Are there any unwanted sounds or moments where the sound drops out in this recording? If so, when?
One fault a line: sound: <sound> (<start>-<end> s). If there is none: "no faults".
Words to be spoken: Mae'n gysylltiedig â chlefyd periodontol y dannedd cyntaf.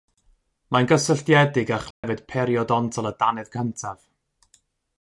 sound: dropout (1.9-2.0 s)